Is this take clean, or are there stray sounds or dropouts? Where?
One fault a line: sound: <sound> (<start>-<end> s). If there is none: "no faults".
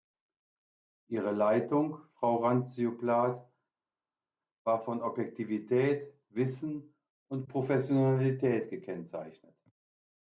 no faults